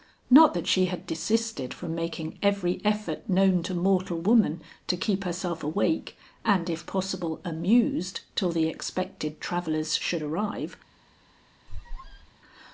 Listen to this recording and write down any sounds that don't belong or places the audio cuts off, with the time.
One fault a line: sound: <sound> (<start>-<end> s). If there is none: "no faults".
sound: squeak (11.7-12.3 s)